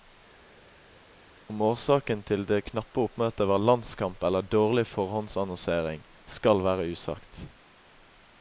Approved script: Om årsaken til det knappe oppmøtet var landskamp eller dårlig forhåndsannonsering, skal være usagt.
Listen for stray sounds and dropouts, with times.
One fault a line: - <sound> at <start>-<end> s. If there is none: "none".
none